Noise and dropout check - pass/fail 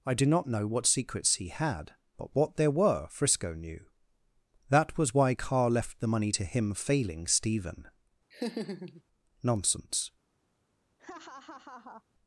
fail